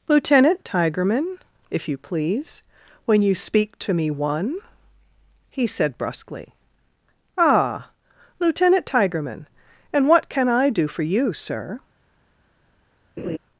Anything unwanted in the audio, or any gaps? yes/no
yes